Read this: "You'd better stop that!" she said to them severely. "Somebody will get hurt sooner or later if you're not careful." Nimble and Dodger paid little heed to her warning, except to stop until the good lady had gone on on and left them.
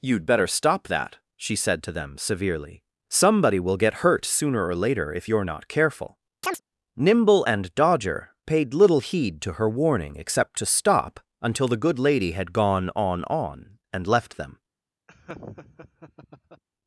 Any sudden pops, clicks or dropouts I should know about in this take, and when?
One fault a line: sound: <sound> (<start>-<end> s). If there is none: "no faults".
sound: chirp (6.4-6.6 s)
sound: laugh (15.1-16.6 s)